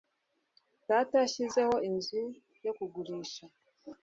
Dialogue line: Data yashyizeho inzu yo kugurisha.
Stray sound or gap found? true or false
false